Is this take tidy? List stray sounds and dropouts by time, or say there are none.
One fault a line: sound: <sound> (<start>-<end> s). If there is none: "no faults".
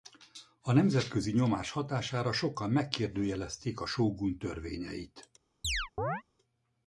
sound: chirp (5.6-6.2 s)